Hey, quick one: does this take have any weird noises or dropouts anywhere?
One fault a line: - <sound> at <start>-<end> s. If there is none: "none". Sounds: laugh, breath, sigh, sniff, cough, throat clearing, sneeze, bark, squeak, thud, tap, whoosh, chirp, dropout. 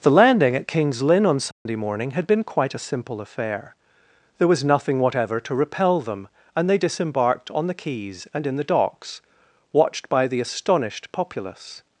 - dropout at 1.5-1.7 s